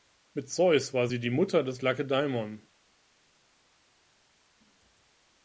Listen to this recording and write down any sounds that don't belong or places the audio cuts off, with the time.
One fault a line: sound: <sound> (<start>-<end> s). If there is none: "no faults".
no faults